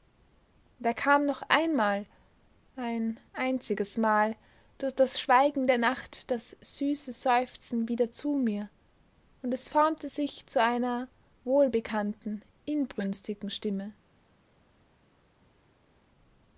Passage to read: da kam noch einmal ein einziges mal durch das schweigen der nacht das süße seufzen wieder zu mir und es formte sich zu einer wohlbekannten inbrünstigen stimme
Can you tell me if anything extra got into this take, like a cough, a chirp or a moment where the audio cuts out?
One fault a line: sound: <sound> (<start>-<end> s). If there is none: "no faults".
no faults